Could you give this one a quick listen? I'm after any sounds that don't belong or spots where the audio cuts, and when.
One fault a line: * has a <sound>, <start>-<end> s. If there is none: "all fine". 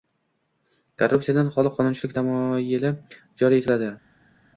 all fine